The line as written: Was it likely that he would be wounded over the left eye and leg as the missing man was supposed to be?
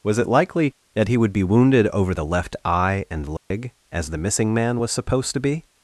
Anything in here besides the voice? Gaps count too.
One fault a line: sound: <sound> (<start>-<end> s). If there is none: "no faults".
sound: dropout (3.4-3.5 s)